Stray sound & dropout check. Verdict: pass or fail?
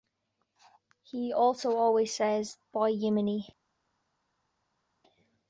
pass